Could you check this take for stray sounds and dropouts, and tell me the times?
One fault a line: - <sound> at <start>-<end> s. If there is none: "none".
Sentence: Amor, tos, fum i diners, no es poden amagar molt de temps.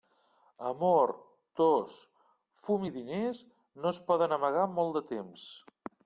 none